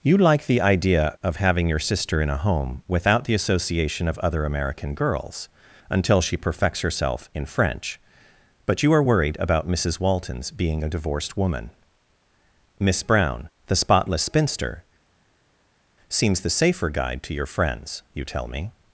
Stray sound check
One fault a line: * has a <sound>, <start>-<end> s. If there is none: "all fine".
all fine